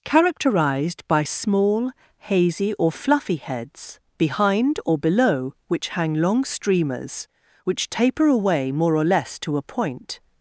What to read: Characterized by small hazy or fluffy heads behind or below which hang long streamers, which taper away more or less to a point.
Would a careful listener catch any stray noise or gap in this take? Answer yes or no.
no